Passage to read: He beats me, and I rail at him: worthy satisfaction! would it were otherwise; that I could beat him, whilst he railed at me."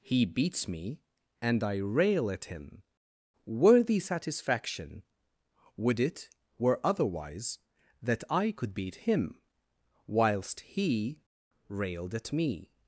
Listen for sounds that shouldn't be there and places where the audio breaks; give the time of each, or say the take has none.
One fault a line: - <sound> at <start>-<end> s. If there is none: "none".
none